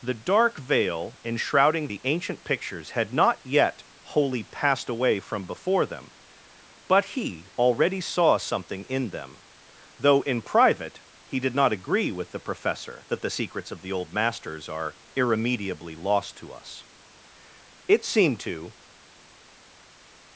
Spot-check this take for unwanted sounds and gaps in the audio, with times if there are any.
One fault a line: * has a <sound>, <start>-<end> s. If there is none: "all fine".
all fine